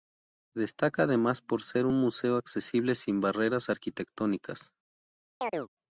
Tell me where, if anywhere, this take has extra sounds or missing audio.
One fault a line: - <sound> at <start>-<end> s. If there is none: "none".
- chirp at 5.4-5.7 s